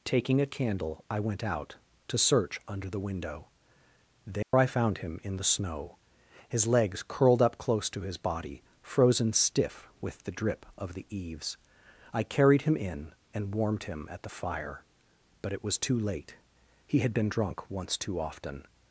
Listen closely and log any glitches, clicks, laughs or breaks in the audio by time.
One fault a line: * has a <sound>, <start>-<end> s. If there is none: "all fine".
* has a dropout, 4.4-4.5 s